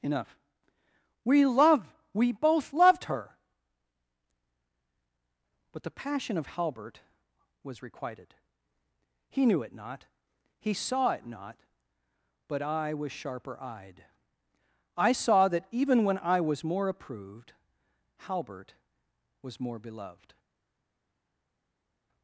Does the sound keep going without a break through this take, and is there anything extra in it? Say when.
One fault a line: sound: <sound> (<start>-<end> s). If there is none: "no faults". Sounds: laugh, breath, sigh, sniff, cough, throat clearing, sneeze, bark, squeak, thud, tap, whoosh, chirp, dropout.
no faults